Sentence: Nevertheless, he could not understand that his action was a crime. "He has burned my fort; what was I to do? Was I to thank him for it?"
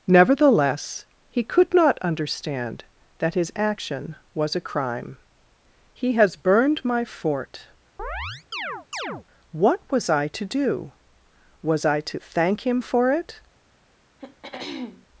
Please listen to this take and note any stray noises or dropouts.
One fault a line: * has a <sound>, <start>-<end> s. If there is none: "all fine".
* has a chirp, 8.0-9.3 s
* has a throat clearing, 14.2-15.1 s